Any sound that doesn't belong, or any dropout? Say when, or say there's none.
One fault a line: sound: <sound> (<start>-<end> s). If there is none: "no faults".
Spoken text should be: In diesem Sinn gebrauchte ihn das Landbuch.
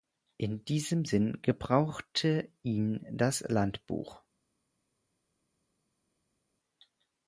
no faults